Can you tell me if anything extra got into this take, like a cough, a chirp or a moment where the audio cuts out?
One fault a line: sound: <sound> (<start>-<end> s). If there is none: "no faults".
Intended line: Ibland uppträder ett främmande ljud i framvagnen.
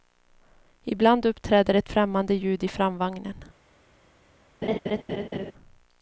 sound: laugh (4.6-5.5 s)